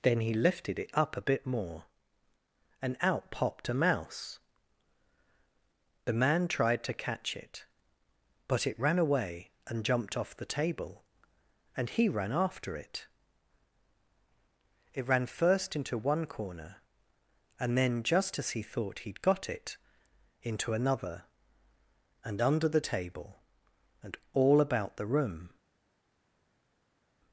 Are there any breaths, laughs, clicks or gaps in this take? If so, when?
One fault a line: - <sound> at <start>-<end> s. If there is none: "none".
none